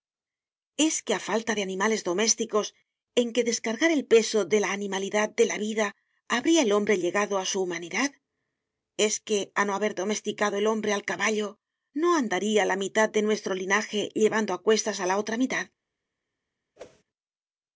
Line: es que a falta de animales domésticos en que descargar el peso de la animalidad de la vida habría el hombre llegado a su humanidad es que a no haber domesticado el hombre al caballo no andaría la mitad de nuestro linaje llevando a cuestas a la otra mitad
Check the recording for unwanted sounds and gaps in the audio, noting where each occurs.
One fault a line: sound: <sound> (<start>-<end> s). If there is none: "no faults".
sound: whoosh (16.8-17.0 s)